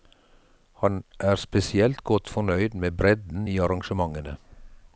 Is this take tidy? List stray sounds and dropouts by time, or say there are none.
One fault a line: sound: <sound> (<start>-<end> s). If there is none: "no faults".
no faults